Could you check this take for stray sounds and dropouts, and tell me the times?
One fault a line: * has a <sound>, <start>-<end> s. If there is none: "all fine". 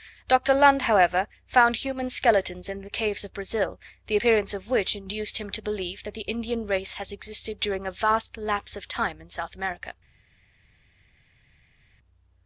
all fine